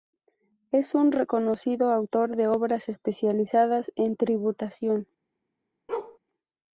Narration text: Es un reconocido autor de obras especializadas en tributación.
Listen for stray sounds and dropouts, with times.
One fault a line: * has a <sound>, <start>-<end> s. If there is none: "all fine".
* has a bark, 5.9-6.2 s